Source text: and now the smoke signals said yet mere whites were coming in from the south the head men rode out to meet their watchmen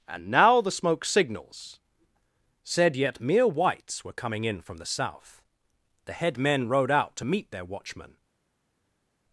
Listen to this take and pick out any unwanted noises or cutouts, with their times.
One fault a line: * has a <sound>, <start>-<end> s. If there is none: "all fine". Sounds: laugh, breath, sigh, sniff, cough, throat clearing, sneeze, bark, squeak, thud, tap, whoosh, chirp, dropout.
all fine